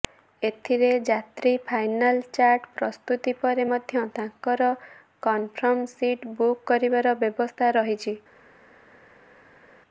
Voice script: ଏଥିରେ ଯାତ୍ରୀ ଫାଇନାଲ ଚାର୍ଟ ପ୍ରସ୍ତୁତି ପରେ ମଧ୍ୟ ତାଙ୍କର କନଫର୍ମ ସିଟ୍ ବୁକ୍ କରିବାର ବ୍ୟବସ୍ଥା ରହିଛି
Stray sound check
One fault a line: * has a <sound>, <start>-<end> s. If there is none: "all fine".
all fine